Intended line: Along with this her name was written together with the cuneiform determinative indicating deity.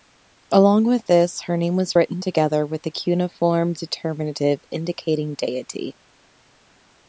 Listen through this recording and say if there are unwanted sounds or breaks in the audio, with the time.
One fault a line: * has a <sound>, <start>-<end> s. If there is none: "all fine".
all fine